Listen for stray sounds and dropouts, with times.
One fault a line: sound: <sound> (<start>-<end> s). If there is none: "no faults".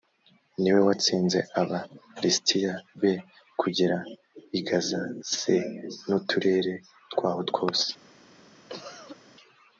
sound: cough (8.7-9.2 s)